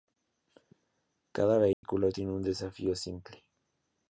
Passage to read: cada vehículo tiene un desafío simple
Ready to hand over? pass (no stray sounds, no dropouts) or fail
fail